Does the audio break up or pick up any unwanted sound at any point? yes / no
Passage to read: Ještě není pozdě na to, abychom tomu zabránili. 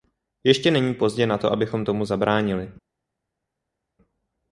no